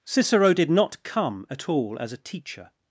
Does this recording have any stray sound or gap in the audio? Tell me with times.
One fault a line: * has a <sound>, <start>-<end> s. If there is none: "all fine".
all fine